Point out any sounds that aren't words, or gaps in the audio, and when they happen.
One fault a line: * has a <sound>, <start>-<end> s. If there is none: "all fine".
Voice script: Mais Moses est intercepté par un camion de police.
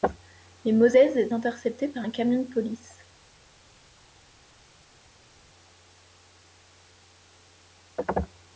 all fine